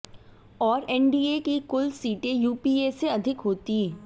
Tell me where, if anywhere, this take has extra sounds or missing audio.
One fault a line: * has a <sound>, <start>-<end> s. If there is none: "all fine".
all fine